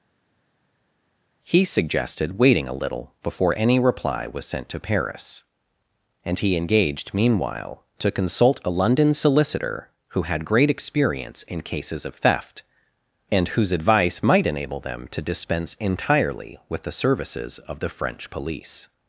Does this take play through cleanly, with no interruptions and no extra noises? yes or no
yes